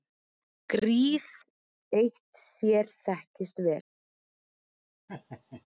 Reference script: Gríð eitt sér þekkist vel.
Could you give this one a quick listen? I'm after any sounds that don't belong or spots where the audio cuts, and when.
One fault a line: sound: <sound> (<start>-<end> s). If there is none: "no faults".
sound: laugh (5.1-5.7 s)